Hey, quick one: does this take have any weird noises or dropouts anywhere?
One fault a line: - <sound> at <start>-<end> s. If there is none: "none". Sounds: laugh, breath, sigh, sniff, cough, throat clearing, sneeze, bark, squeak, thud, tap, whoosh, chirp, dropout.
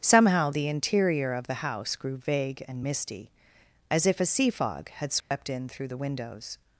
- dropout at 5.2-5.3 s